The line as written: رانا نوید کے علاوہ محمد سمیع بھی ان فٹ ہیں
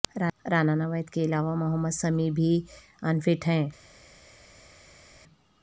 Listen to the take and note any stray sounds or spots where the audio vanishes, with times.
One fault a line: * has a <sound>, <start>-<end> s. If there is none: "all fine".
all fine